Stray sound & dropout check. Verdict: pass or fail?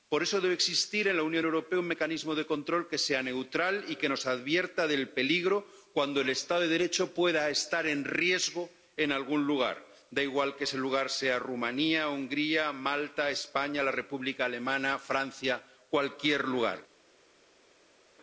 pass